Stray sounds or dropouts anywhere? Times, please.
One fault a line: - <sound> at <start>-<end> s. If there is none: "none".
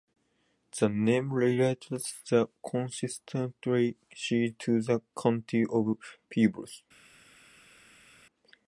none